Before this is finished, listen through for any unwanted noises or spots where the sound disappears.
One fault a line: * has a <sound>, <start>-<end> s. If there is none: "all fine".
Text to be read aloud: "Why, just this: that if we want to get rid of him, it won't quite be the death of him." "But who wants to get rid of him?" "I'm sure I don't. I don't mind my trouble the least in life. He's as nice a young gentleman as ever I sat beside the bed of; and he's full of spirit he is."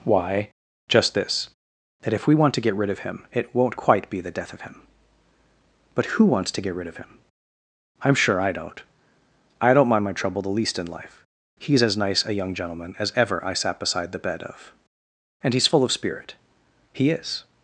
all fine